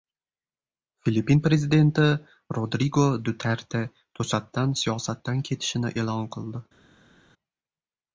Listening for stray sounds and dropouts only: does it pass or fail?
pass